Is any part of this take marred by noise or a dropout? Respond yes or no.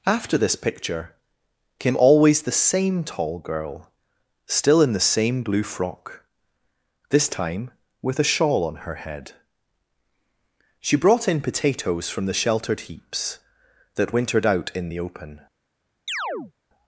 yes